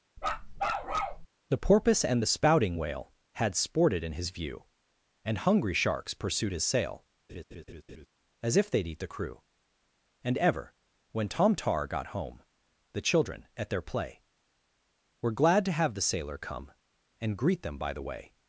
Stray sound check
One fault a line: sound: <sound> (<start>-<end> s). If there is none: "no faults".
sound: bark (0.2-1.3 s)
sound: laugh (7.3-8.1 s)